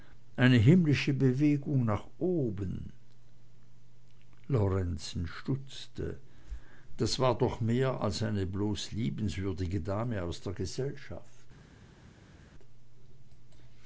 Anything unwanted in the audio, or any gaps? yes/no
no